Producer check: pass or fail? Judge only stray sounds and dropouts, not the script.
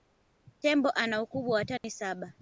fail